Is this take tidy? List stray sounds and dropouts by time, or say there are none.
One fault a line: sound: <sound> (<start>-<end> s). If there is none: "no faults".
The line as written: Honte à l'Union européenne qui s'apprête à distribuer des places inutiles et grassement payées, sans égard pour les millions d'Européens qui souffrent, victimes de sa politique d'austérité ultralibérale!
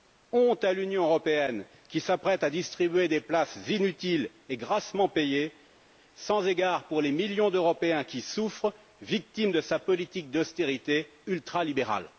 no faults